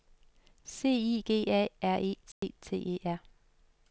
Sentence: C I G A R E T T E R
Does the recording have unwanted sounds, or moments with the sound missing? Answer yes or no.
yes